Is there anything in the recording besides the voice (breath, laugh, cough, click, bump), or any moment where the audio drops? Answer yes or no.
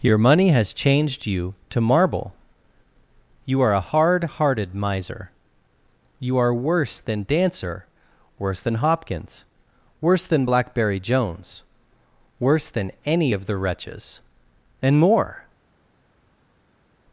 no